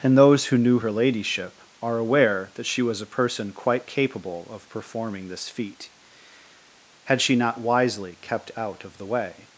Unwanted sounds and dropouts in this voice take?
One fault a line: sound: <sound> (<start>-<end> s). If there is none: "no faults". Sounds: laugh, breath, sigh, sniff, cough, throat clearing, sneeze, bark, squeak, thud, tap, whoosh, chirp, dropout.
no faults